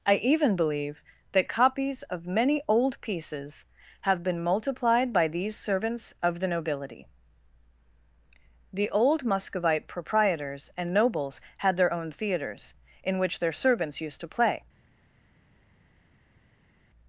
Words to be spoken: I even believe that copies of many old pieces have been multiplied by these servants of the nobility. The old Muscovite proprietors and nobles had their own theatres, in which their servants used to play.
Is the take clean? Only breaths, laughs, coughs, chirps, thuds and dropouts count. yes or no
yes